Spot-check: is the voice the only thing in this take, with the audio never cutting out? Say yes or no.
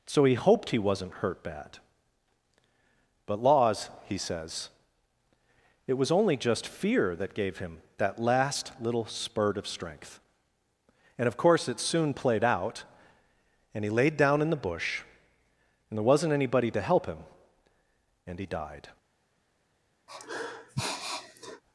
no